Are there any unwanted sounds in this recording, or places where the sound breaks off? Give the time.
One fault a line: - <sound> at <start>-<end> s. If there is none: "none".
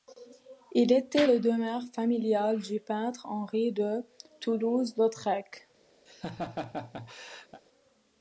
- laugh at 6.1-7.6 s